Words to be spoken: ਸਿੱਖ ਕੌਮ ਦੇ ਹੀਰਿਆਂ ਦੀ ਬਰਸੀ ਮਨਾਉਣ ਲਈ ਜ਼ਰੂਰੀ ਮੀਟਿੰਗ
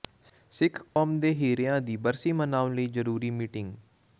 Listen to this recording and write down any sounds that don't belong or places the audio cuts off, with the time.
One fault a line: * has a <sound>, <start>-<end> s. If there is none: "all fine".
* has a dropout, 0.9-1.0 s